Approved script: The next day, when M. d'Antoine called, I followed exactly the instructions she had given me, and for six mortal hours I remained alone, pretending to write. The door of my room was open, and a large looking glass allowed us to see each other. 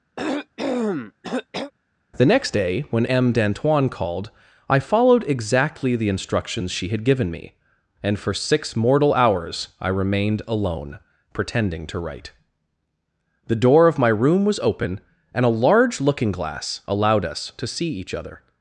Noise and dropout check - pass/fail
fail